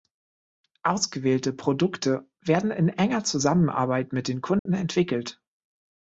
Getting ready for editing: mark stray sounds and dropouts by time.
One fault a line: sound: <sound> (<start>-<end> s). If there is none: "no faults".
sound: dropout (4.6-4.7 s)